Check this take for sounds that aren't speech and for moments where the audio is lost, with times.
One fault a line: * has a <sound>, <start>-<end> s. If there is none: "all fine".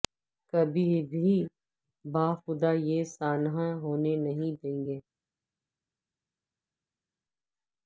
all fine